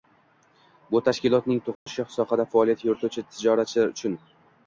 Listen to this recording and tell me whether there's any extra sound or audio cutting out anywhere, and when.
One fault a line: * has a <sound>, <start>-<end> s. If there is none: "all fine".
* has a dropout, 1.7-1.9 s